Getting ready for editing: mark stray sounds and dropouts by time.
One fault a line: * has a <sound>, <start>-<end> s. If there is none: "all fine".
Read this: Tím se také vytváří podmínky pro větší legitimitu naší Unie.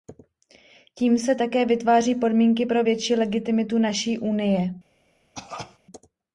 * has a cough, 5.3-5.8 s